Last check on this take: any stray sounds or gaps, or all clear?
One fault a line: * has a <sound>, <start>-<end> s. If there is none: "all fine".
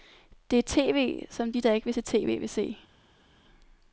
all fine